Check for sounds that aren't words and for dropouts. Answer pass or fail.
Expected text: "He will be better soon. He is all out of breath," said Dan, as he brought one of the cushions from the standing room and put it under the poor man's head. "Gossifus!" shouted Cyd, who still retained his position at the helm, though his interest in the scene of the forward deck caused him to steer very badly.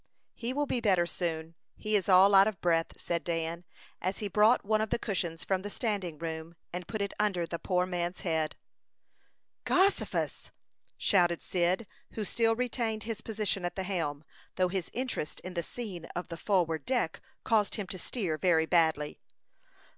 pass